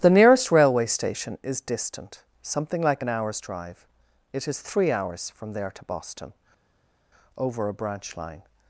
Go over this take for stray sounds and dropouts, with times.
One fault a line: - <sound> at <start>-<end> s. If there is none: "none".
none